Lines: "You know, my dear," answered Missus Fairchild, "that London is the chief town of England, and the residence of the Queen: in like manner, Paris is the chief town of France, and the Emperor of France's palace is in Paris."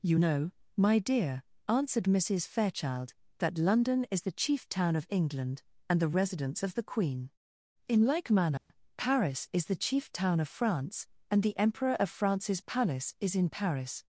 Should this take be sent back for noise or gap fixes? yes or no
yes